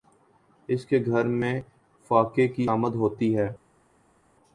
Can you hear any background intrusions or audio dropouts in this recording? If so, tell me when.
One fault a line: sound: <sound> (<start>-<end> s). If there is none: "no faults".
no faults